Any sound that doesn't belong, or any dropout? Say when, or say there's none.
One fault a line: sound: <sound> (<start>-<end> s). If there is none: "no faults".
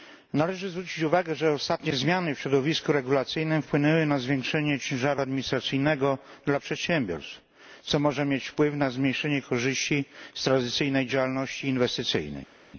no faults